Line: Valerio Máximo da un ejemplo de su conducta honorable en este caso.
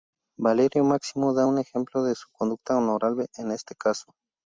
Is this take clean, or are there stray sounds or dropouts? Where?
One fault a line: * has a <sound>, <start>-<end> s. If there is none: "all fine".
all fine